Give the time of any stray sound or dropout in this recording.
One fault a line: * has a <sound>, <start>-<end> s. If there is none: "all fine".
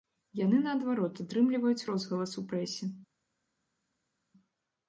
all fine